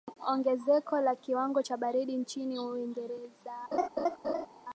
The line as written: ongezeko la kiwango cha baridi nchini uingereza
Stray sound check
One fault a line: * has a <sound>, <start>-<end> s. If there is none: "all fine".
* has a laugh, 3.7-4.5 s